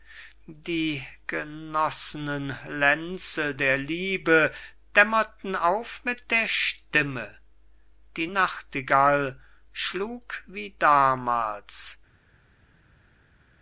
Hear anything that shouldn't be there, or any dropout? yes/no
no